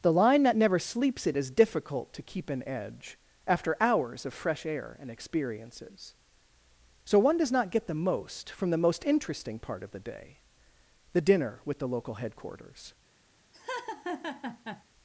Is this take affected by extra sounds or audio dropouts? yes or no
yes